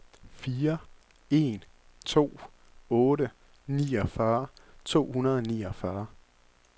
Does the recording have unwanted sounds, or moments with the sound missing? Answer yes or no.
no